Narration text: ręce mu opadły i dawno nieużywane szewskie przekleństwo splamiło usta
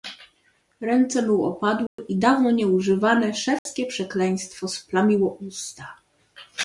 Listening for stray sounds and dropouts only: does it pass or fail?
fail